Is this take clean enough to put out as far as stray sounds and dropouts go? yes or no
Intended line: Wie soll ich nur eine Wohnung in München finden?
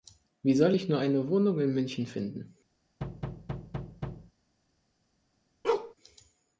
no